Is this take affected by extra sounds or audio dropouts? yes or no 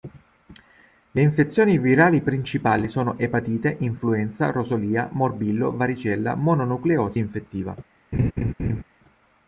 yes